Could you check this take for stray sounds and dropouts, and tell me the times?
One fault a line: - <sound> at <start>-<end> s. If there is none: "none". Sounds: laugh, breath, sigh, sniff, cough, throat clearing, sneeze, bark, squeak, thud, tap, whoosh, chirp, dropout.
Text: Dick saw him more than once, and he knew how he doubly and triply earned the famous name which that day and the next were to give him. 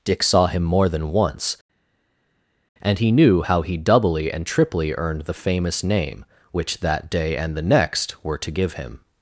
none